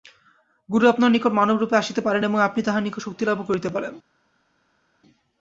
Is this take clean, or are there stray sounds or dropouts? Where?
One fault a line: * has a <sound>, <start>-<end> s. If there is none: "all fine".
all fine